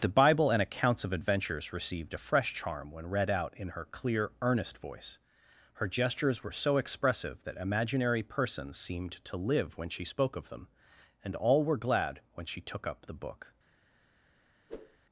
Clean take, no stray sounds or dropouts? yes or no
no